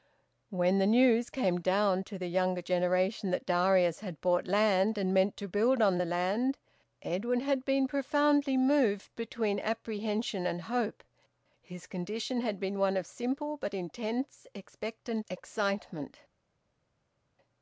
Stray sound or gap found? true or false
false